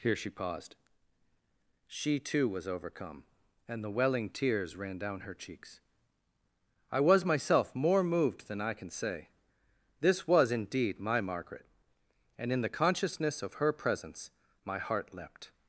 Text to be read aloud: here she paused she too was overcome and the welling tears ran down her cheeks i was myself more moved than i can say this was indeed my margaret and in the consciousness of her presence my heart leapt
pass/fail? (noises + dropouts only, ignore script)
pass